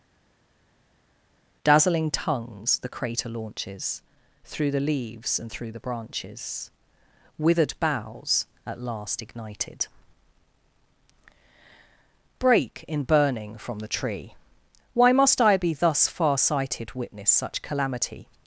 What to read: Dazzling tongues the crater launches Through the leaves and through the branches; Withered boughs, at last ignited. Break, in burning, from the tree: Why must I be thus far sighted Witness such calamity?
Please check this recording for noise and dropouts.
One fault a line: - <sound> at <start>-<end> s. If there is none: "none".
none